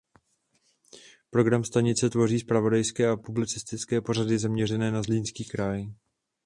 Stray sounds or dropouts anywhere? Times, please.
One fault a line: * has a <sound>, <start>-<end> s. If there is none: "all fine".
all fine